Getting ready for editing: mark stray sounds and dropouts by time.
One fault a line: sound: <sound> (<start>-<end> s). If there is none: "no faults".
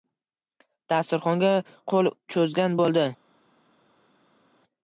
no faults